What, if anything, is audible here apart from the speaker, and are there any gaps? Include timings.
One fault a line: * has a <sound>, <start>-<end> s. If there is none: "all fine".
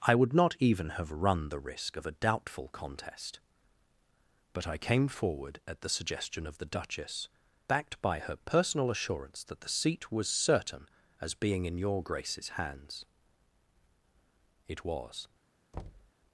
* has a thud, 15.7-16.1 s